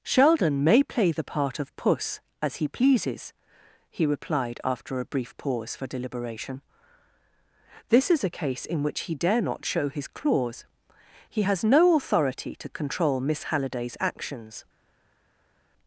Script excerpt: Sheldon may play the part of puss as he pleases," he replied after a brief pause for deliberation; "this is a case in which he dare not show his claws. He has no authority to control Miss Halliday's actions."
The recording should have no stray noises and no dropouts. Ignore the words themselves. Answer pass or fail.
pass